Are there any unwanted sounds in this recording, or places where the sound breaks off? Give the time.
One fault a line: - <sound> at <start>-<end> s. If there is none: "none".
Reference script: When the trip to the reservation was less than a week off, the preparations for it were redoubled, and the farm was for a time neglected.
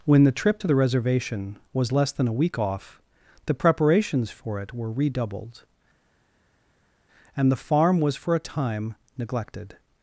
none